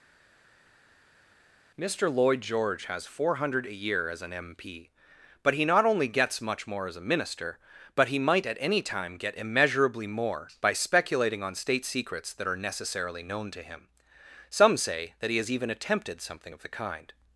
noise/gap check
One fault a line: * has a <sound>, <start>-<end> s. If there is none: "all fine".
all fine